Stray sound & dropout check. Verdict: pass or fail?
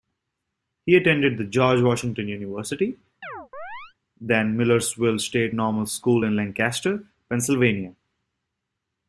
fail